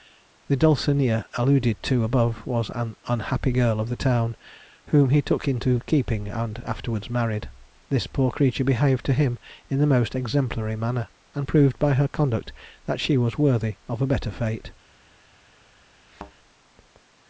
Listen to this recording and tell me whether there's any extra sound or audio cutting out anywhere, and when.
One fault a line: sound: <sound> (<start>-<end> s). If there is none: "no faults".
sound: thud (16.1-16.3 s)